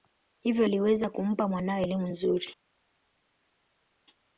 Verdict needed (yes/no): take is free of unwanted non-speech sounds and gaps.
yes